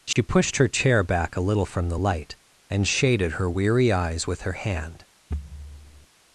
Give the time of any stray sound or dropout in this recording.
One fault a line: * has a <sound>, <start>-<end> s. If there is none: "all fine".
* has a dropout, 0.1-0.2 s
* has a thud, 5.3-6.1 s